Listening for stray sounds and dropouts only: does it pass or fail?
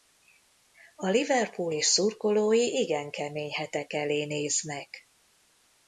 pass